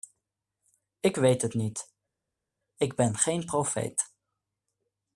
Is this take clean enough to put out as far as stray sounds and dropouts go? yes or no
yes